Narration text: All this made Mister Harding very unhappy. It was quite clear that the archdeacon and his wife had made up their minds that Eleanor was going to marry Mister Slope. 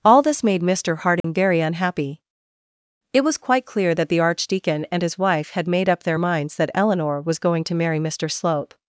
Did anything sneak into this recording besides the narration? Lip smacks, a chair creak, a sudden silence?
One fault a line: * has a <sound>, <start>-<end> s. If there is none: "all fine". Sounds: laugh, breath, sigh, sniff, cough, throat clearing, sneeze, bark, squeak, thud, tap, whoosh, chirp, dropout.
* has a dropout, 1.2-1.2 s